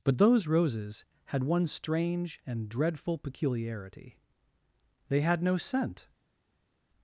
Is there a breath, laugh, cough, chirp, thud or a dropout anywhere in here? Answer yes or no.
no